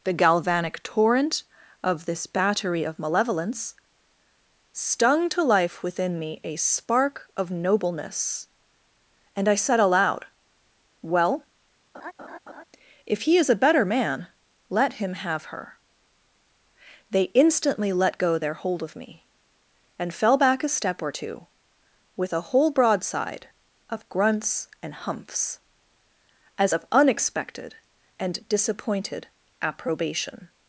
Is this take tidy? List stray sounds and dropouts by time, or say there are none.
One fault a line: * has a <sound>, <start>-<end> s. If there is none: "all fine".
* has a laugh, 11.9-12.6 s